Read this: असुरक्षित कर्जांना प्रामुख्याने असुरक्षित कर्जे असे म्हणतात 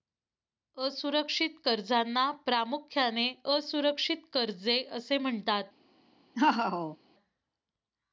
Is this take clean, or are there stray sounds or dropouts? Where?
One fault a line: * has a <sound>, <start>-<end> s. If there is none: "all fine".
* has a laugh, 6.3-7.0 s